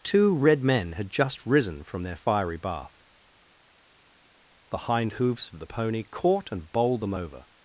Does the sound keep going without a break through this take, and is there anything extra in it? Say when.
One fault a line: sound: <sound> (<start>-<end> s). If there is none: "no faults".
no faults